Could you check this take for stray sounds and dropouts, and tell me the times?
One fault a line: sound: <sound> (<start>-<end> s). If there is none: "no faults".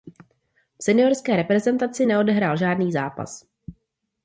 no faults